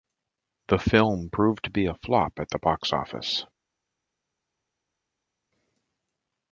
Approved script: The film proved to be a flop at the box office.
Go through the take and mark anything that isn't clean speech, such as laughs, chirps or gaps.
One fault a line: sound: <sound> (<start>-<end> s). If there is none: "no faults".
no faults